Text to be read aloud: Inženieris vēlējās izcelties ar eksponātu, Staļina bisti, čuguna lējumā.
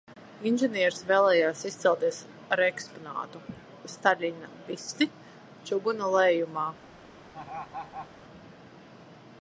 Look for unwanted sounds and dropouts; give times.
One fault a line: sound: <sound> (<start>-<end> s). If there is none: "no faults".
sound: laugh (7.3-8.1 s)